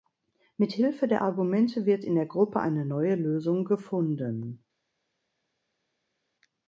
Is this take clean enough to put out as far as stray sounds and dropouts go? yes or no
yes